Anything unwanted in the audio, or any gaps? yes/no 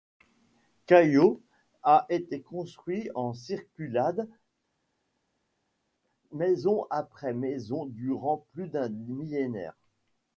no